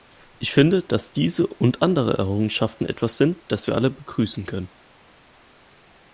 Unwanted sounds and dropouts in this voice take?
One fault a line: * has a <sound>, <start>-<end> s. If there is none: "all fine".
all fine